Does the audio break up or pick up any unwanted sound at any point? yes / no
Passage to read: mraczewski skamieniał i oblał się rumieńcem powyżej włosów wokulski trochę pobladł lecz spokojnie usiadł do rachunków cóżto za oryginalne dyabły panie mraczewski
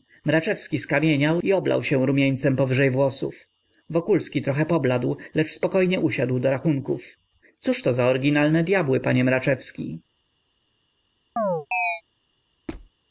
yes